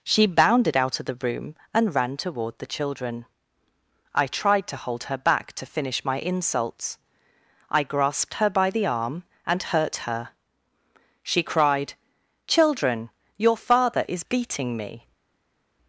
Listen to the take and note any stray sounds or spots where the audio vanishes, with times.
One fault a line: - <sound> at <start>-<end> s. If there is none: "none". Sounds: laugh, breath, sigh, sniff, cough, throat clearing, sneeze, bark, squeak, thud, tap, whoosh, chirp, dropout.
none